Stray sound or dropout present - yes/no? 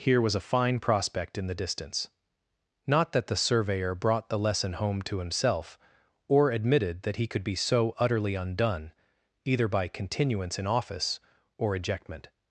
no